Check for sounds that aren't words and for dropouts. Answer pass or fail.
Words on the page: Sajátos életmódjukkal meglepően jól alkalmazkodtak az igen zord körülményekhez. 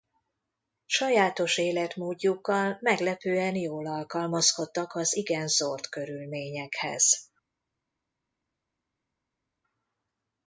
pass